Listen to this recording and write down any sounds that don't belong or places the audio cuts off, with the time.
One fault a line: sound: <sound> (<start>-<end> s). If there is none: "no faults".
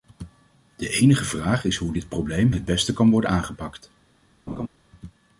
sound: laugh (4.5-4.7 s)